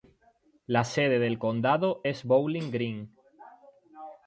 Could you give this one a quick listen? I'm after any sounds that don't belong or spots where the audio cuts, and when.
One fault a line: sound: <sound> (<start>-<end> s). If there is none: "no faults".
no faults